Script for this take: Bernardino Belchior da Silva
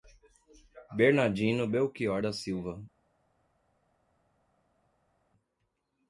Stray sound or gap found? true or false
false